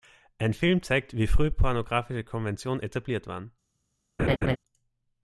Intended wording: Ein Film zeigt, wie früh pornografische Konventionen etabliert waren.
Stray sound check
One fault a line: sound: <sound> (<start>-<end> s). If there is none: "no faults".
sound: laugh (4.2-4.6 s)